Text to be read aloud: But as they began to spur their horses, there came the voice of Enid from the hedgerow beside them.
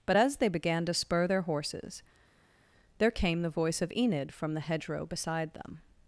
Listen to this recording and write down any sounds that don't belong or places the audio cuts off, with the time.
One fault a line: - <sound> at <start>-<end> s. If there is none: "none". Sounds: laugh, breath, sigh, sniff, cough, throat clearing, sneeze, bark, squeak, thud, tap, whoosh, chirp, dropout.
none